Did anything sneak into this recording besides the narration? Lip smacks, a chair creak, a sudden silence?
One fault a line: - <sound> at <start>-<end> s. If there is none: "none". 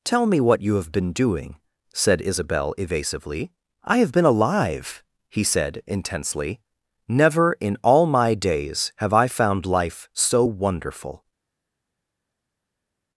none